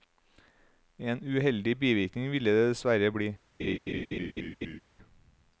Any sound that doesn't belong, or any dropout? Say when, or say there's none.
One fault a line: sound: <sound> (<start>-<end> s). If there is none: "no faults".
sound: laugh (3.6-4.8 s)